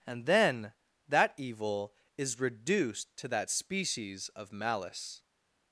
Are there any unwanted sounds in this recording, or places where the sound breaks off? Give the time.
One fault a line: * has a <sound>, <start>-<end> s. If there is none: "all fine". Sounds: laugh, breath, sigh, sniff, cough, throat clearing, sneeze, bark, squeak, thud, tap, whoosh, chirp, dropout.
all fine